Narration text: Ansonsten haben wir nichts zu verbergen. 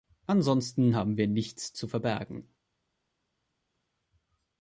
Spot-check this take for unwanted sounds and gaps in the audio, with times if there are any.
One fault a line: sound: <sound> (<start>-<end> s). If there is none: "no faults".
no faults